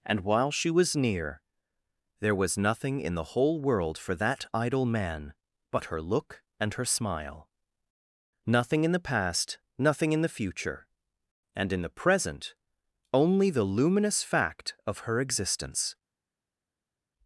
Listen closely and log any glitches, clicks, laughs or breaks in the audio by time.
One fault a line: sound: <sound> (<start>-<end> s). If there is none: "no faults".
no faults